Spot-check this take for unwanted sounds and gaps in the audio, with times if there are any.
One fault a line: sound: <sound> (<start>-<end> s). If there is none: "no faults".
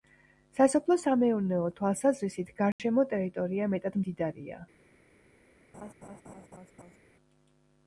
sound: dropout (2.7-2.8 s)
sound: laugh (5.7-7.0 s)